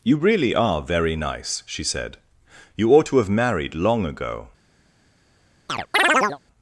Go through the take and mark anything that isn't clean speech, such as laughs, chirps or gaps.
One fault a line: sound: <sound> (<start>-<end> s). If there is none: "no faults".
sound: chirp (5.7-6.4 s)